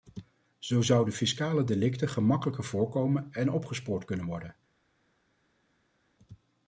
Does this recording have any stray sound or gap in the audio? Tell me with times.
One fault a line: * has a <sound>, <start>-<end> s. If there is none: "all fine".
all fine